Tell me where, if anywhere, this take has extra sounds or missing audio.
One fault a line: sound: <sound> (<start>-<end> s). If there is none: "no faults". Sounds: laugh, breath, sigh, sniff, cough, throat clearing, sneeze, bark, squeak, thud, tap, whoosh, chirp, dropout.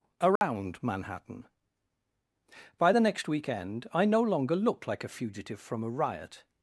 sound: dropout (0.4-0.4 s)